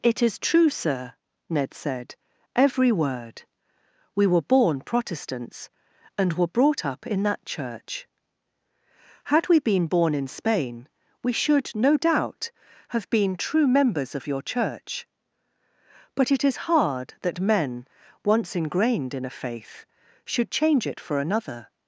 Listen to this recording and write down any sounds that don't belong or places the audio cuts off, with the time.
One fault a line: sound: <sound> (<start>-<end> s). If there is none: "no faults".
no faults